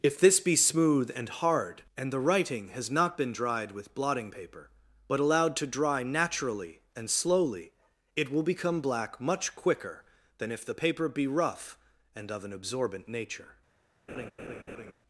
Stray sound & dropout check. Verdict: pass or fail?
fail